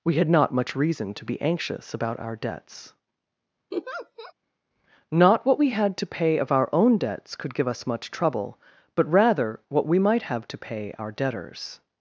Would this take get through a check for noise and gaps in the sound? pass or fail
fail